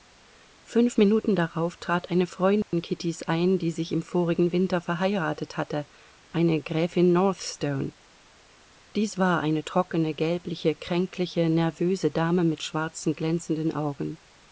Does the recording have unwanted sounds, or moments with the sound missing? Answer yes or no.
yes